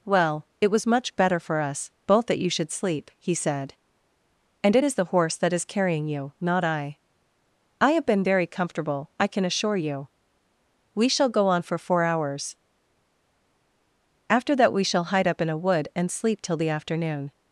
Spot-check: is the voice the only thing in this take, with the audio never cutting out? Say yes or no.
yes